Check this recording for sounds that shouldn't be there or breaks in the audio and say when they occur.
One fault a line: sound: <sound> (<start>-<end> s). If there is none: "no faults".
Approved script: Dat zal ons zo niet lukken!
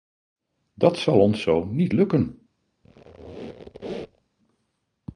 sound: squeak (2.8-4.3 s)